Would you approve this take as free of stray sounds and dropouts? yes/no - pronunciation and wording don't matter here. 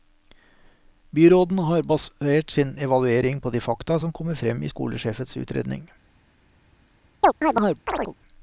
no